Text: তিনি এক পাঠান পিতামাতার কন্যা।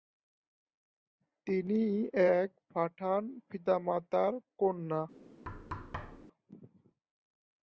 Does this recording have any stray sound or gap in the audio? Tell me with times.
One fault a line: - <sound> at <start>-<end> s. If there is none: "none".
- thud at 5.4-6.3 s